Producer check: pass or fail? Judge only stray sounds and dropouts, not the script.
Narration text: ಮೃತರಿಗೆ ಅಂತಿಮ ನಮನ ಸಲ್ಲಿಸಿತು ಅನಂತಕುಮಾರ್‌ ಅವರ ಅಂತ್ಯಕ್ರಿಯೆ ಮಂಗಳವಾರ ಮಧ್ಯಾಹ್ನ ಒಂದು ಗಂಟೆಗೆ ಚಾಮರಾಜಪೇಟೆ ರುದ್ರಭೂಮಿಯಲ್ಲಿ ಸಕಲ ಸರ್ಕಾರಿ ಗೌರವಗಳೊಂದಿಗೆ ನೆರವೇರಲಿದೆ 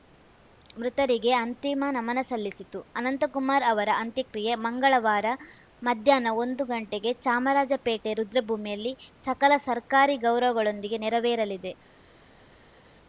pass